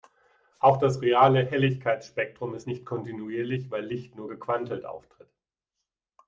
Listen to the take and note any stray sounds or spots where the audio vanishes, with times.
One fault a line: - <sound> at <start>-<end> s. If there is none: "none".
none